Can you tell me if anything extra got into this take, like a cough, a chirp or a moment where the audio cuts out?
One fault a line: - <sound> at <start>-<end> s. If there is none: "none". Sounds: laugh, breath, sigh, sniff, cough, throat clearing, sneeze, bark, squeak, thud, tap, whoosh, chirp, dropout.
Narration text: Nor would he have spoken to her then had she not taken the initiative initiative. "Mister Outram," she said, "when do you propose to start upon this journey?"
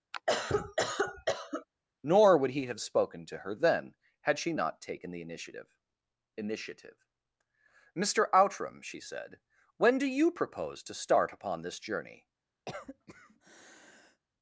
- cough at 0.1-1.7 s
- cough at 12.7-14.2 s